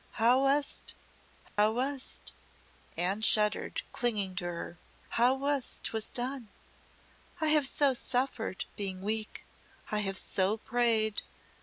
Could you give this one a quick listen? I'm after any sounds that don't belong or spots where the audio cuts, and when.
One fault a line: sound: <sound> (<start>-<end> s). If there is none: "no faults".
sound: dropout (1.5-1.6 s)